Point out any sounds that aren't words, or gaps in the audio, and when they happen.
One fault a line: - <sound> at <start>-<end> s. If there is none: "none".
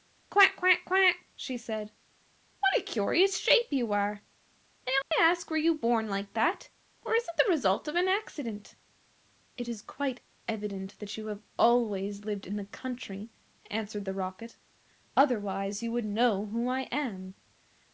- dropout at 5.0-5.1 s